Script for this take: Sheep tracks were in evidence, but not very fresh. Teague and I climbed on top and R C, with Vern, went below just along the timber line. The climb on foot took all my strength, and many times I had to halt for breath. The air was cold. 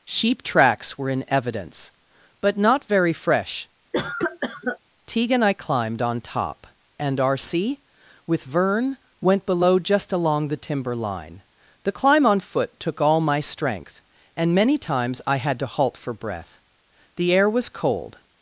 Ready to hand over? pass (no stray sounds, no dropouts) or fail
fail